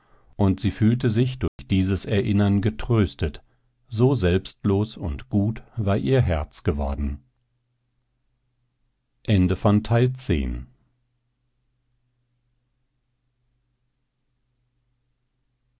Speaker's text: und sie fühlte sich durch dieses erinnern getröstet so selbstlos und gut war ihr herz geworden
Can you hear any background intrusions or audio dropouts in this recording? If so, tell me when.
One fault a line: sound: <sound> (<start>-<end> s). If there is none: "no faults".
sound: dropout (1.5-1.6 s)